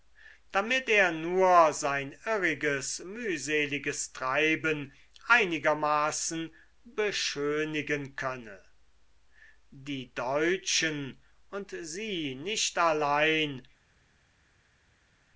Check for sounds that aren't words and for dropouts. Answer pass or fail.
pass